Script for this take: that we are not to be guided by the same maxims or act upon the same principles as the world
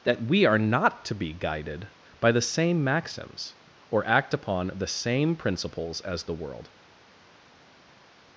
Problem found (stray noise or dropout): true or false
false